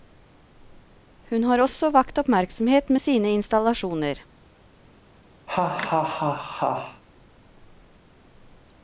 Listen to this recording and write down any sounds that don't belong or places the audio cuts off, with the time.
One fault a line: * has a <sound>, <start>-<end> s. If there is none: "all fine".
* has a laugh, 5.5-7.0 s